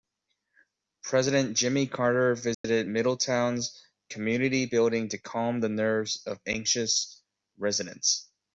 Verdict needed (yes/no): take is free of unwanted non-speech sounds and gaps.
no